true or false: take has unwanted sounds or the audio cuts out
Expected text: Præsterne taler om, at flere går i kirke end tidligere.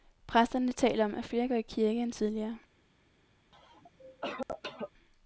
true